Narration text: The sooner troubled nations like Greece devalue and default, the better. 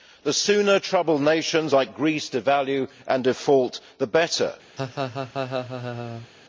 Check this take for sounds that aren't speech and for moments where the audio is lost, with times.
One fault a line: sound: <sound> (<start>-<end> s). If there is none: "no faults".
sound: laugh (4.8-6.3 s)